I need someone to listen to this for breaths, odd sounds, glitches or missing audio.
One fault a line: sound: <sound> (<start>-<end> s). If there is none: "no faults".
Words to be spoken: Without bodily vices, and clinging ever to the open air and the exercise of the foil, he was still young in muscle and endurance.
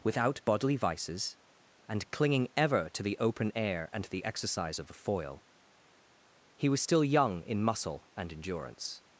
no faults